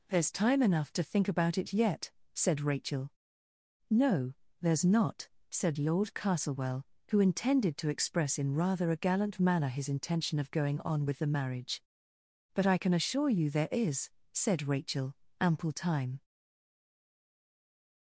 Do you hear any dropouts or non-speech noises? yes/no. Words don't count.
no